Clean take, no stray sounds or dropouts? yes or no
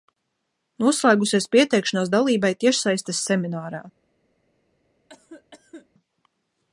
no